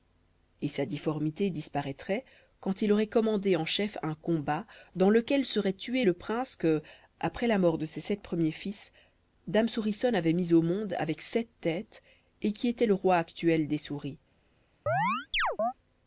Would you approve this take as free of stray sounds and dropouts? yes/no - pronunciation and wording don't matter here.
no